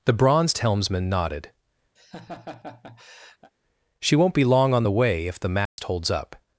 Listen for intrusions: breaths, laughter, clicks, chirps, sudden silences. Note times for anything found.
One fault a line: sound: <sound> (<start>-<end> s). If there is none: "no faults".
sound: laugh (2.0-3.5 s)
sound: dropout (5.7-5.8 s)